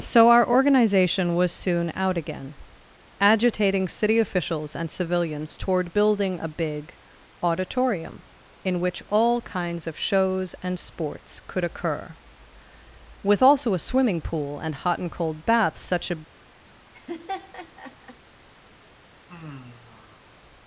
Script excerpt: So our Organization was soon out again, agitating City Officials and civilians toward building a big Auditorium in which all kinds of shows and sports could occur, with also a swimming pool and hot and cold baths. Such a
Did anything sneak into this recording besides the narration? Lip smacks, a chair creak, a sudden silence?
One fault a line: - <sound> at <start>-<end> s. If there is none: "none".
- laugh at 16.9-18.2 s
- sigh at 19.3-20.3 s